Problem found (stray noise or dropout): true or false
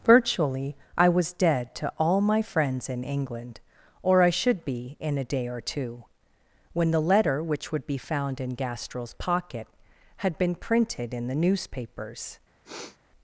true